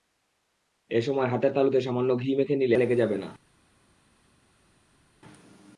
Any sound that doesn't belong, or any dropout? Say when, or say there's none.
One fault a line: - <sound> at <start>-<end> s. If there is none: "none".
none